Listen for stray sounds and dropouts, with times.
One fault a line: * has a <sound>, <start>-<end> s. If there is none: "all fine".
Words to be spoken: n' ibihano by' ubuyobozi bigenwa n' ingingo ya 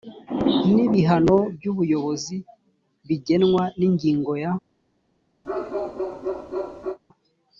* has a bark, 5.4-7.0 s